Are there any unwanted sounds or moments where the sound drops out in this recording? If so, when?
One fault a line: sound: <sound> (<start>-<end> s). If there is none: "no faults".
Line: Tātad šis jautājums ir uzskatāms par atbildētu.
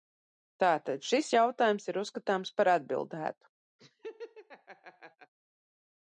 sound: laugh (3.8-5.3 s)